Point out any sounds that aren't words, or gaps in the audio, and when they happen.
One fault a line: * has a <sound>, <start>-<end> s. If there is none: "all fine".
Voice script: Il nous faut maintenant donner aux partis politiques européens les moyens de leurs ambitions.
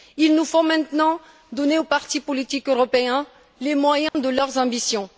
* has a dropout, 4.1-4.1 s